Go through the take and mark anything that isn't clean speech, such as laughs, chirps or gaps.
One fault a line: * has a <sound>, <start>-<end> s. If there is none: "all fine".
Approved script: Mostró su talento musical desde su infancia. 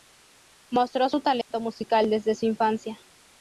* has a dropout, 1.4-1.5 s